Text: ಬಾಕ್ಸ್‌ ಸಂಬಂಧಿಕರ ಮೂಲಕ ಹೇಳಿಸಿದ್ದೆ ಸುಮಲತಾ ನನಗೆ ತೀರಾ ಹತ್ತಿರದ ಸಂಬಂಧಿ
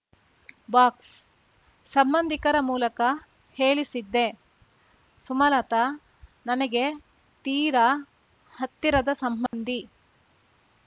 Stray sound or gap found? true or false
true